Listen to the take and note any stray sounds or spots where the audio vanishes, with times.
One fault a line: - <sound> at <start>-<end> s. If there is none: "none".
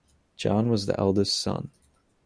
none